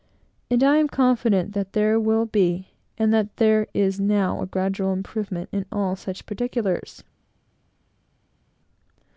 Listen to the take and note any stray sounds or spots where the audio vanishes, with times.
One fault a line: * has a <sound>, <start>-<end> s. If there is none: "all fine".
all fine